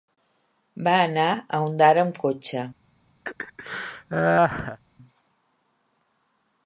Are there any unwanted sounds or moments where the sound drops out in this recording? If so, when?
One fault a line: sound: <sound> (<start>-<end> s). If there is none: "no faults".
sound: laugh (3.2-4.8 s)